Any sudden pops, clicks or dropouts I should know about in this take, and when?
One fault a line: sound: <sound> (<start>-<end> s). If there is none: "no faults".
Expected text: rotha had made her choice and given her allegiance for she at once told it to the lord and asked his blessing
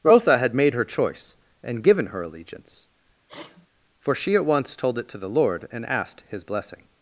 sound: sneeze (3.3-3.7 s)